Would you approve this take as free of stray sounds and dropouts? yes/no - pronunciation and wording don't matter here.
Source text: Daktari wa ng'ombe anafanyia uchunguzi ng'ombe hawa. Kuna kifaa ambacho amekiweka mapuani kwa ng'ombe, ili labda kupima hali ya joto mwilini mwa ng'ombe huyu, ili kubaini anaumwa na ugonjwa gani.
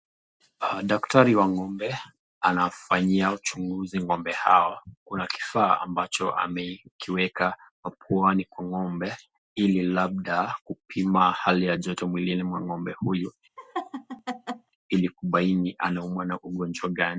no